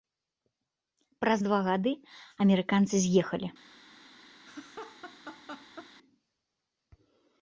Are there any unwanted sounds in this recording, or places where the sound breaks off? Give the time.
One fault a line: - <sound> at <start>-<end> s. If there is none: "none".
- laugh at 4.5-5.9 s